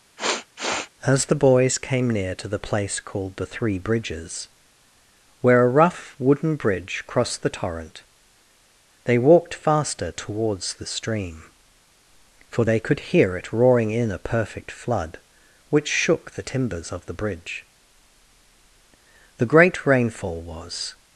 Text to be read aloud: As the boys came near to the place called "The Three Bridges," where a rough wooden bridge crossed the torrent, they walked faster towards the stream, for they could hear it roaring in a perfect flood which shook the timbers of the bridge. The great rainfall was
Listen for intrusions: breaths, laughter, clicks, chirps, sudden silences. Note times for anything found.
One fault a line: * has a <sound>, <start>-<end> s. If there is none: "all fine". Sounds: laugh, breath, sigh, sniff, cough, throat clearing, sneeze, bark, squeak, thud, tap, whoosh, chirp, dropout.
* has a sniff, 0.2-0.9 s